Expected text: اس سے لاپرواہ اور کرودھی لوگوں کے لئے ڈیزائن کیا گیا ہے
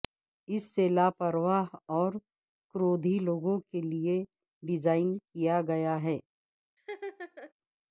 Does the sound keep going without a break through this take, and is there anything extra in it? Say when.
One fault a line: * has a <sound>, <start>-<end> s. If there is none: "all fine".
* has a laugh, 6.8-7.5 s